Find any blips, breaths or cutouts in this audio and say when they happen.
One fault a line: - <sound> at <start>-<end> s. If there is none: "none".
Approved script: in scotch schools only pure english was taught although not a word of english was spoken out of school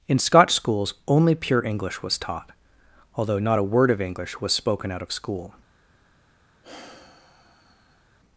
- sigh at 6.6-8.1 s